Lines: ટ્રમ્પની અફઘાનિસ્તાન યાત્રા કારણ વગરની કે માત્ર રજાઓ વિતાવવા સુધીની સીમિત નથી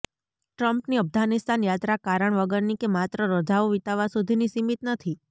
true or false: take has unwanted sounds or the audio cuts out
false